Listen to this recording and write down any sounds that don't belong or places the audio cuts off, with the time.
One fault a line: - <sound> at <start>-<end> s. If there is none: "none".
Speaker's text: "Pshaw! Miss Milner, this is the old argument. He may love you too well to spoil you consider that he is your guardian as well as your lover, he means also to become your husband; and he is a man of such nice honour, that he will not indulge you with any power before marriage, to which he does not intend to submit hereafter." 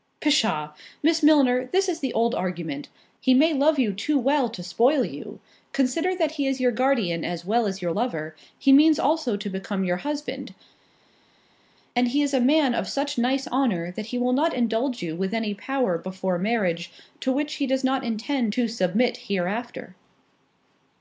none